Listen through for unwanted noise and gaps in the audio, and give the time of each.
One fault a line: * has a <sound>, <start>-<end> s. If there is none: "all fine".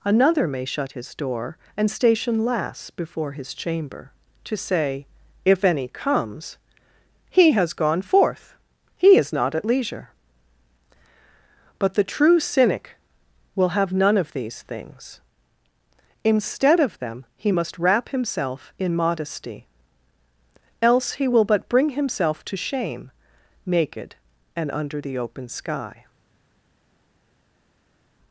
all fine